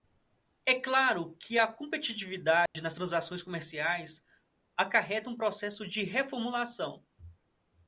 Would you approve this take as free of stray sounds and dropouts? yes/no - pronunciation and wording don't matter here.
no